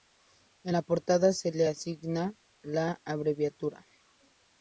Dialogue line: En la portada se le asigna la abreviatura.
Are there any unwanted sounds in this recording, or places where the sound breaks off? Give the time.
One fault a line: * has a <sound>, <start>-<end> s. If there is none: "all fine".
all fine